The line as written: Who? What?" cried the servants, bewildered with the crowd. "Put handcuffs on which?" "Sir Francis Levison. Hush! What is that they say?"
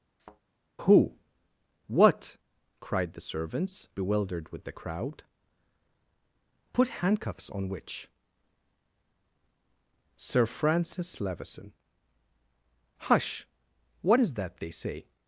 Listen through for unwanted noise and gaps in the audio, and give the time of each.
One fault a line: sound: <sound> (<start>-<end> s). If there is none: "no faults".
sound: thud (0.2-0.4 s)